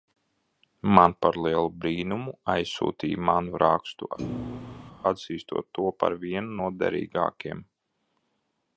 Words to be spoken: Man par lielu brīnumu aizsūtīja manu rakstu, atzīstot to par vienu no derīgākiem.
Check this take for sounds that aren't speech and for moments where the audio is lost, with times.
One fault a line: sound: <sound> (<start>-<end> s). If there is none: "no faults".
sound: thud (4.2-4.9 s)